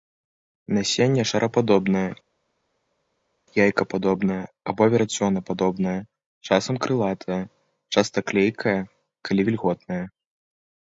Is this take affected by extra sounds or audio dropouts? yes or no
no